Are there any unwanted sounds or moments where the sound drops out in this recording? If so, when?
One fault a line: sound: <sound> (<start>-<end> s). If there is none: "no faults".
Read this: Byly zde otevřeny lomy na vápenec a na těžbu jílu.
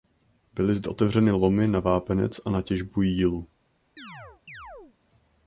sound: chirp (4.0-5.0 s)